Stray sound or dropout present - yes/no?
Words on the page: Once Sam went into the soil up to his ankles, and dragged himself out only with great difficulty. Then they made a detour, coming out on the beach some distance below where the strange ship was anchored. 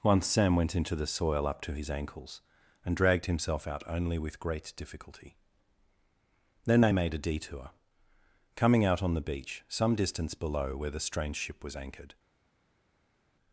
no